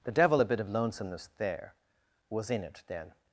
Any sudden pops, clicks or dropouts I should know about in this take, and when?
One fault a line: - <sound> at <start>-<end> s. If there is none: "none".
none